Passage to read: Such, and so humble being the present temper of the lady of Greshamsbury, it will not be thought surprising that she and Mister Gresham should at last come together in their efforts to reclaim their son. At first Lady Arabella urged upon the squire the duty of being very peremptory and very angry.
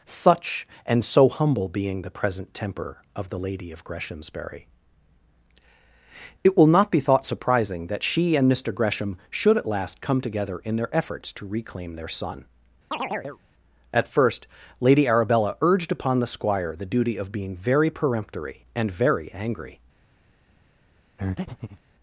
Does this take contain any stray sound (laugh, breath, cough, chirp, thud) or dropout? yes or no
yes